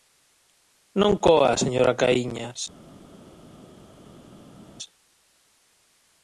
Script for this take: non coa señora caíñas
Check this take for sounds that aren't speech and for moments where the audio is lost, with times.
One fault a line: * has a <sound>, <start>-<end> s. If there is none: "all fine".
all fine